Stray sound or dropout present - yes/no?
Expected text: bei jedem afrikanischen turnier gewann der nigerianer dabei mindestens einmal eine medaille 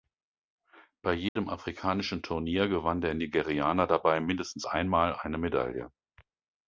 yes